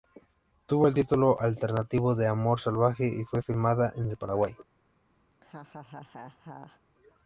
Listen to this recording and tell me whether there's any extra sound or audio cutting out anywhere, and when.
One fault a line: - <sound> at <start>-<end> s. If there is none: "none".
- laugh at 5.3-6.8 s